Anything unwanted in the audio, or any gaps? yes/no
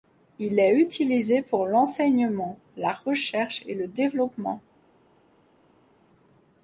no